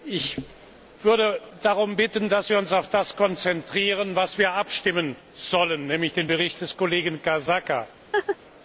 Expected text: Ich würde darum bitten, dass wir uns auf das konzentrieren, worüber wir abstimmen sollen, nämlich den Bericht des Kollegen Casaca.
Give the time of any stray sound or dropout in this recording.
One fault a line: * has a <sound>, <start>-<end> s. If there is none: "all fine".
* has a laugh, 8.1-8.4 s